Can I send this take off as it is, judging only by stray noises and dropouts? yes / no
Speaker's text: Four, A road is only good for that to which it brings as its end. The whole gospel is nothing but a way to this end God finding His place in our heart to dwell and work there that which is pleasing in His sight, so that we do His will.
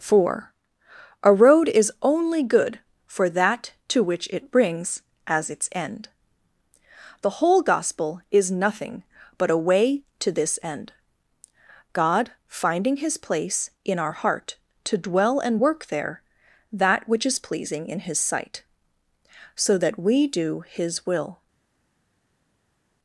yes